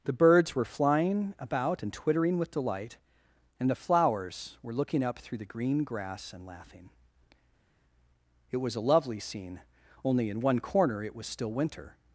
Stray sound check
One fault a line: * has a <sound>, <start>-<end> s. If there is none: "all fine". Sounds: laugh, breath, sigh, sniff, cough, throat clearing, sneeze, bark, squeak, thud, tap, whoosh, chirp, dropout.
all fine